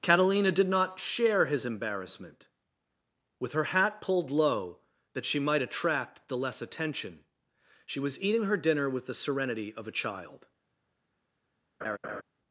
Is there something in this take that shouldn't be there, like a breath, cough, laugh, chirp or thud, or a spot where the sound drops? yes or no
yes